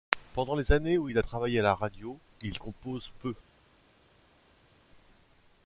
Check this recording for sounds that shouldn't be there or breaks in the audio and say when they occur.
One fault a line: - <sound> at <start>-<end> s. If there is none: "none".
none